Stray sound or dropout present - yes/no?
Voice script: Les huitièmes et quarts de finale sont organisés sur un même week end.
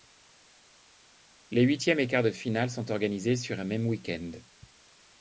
no